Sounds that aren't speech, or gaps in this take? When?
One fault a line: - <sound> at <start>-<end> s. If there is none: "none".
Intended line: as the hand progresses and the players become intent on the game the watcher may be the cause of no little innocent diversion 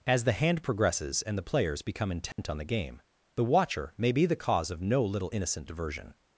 - dropout at 2.3-2.4 s